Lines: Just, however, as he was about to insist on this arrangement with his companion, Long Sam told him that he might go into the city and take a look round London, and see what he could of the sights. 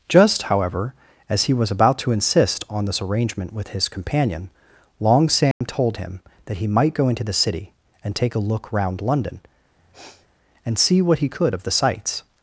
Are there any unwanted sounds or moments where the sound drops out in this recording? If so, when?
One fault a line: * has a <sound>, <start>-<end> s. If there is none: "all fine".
* has a dropout, 5.5-5.6 s
* has a sniff, 9.8-10.3 s